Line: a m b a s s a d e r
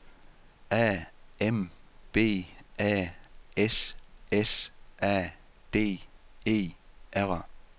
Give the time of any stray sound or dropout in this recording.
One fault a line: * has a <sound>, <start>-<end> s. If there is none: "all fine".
all fine